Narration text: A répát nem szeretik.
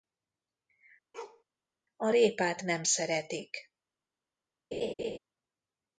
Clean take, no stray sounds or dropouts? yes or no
no